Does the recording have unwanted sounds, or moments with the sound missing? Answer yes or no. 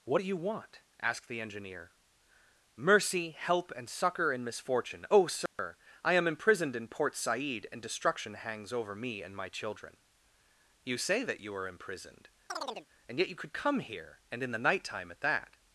yes